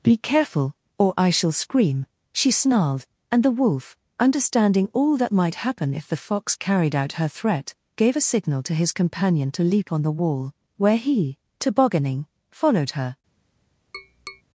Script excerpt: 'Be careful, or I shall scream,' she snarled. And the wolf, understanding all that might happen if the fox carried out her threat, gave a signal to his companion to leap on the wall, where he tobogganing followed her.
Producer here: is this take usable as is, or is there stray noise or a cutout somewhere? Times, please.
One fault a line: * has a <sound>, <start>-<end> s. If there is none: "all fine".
* has a tap, 13.9-14.4 s